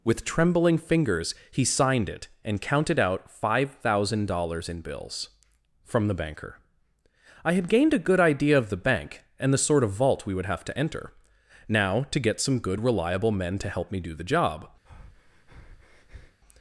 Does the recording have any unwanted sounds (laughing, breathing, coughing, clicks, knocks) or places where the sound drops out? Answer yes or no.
yes